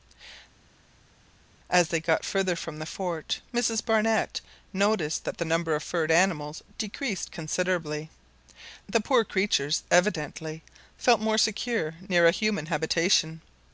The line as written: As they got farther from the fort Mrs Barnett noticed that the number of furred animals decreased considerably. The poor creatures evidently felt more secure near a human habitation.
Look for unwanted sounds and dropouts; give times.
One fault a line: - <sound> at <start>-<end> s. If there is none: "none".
none